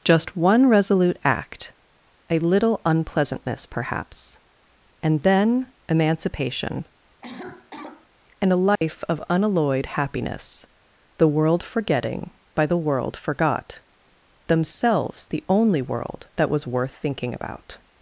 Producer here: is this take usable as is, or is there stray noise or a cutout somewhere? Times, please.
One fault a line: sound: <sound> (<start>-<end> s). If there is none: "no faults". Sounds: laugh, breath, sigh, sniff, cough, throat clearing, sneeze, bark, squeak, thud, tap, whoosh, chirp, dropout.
sound: cough (7.2-8.1 s)
sound: dropout (8.8-8.8 s)